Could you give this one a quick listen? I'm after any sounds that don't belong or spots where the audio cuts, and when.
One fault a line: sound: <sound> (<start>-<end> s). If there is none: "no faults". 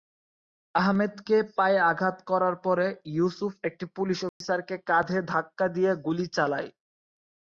sound: dropout (4.3-4.4 s)